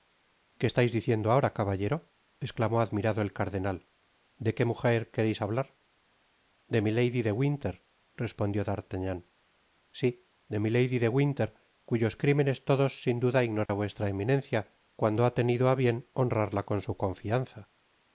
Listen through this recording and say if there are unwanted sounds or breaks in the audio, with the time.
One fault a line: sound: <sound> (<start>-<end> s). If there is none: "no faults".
sound: dropout (13.7-13.7 s)